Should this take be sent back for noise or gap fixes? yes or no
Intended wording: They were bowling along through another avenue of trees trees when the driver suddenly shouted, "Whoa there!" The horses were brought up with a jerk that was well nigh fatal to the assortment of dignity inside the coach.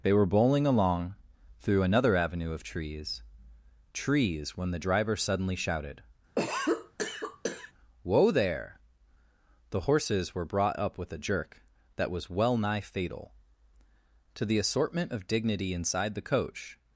yes